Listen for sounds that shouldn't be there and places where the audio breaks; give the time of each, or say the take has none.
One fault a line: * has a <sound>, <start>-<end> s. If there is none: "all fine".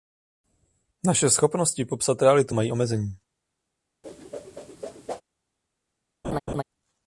* has a whoosh, 4.0-5.2 s
* has a laugh, 6.2-6.6 s